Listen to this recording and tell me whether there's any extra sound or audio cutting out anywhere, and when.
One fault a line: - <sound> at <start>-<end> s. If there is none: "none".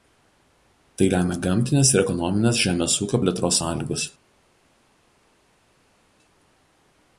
none